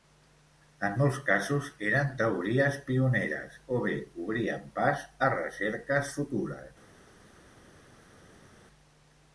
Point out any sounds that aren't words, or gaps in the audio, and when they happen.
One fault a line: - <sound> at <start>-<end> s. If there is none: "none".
none